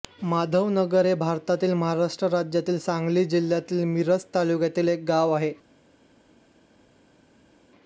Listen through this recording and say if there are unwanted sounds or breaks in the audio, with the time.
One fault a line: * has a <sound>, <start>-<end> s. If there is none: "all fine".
all fine